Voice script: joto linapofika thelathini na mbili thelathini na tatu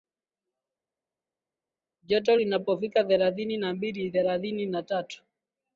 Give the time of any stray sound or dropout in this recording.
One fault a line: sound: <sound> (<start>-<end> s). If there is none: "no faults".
no faults